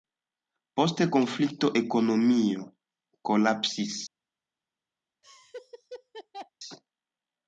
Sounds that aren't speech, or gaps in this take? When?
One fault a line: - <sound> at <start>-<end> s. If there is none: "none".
- laugh at 5.2-6.5 s